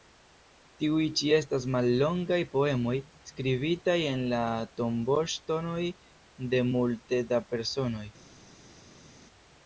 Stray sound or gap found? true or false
false